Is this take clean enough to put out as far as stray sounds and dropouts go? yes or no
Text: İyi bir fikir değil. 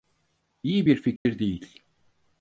no